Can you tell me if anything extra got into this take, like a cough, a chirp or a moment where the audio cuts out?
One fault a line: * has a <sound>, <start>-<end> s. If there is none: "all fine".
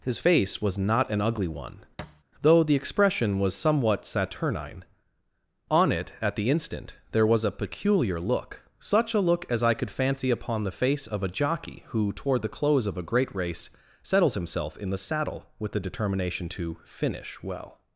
* has a thud, 2.0-2.2 s